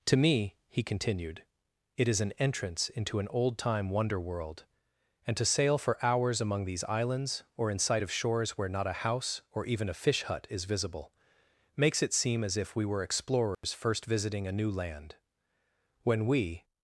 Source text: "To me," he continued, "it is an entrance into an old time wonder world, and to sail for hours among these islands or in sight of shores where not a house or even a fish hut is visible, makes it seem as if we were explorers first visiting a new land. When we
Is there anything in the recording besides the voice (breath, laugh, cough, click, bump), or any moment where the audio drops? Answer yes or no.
yes